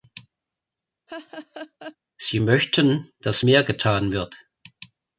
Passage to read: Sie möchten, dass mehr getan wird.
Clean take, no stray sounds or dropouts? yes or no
no